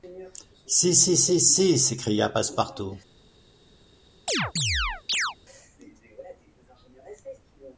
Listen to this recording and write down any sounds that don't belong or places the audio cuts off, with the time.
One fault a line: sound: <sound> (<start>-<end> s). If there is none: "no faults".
sound: chirp (4.3-5.4 s)